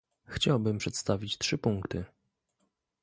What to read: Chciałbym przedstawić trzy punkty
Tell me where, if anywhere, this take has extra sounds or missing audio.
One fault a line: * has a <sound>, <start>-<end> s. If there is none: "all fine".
all fine